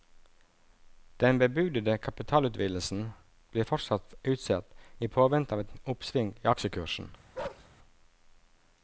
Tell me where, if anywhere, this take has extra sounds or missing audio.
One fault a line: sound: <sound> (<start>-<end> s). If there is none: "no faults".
sound: bark (7.3-7.7 s)